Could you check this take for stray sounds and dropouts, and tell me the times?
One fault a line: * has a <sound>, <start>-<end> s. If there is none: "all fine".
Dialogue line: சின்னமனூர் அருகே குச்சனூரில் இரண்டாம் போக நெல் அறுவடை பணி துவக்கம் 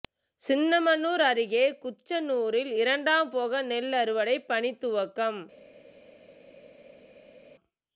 all fine